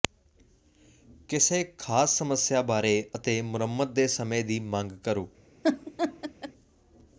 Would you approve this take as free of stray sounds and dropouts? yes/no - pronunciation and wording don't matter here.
no